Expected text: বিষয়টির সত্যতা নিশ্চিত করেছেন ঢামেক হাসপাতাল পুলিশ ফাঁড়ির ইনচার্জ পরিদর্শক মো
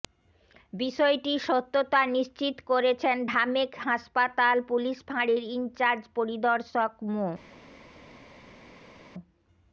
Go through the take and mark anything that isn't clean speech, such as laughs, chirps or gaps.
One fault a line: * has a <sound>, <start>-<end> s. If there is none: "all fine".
all fine